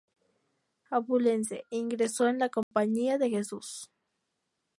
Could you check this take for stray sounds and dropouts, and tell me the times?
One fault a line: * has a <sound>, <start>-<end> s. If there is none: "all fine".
* has a dropout, 2.6-2.7 s